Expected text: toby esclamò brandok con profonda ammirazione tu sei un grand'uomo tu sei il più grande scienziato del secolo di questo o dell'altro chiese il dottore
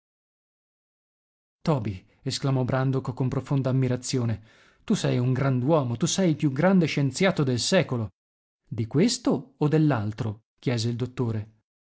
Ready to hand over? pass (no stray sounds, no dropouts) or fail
pass